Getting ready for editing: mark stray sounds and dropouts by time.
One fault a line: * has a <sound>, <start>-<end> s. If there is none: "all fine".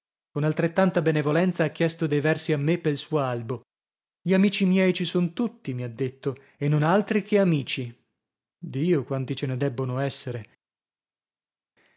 all fine